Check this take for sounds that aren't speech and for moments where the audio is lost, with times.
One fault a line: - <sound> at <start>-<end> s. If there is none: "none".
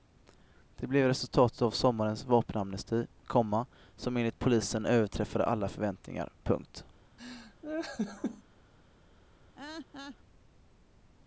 - laugh at 7.2-8.4 s
- laugh at 9.5-10.2 s